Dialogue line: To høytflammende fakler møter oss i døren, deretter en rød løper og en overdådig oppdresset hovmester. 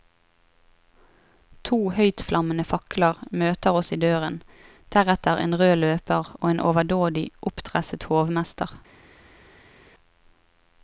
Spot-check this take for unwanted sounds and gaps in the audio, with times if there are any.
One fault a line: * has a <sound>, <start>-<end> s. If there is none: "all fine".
all fine